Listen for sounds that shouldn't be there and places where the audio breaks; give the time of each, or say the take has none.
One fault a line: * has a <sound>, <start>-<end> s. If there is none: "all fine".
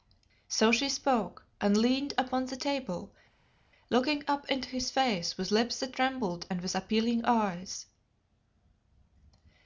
all fine